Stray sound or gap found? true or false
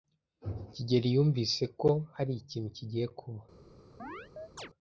true